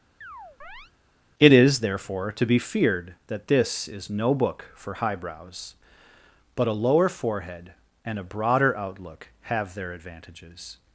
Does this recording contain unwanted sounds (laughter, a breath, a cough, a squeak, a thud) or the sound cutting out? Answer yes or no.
yes